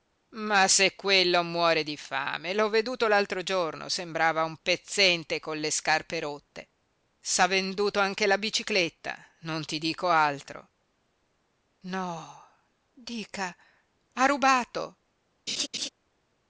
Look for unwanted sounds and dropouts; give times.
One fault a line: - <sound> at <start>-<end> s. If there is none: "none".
- laugh at 15.5-15.9 s